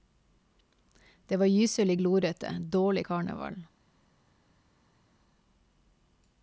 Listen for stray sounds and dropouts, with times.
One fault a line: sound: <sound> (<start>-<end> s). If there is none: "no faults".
no faults